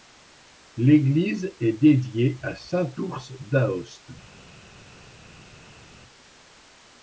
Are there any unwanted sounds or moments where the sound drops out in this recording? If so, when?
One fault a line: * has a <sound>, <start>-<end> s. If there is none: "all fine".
all fine